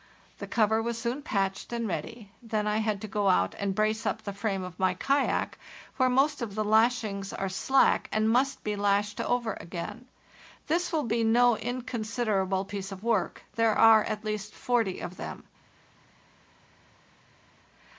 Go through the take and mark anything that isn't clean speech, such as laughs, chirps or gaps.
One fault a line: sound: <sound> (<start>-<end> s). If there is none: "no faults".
no faults